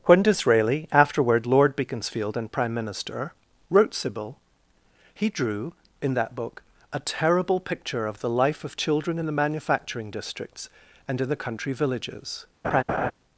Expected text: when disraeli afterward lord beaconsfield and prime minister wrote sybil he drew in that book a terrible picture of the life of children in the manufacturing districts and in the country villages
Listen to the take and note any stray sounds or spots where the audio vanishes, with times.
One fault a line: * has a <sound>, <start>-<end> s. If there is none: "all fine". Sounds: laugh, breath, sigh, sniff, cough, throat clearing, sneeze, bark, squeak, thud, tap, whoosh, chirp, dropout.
* has a laugh, 12.6-13.1 s